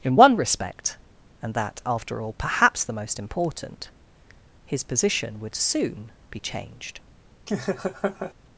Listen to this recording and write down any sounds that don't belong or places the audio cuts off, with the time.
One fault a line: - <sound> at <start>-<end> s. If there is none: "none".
- laugh at 7.5-8.3 s